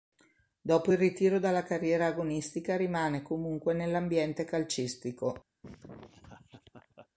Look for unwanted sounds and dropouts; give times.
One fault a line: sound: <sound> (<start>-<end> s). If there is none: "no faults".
sound: laugh (5.6-7.1 s)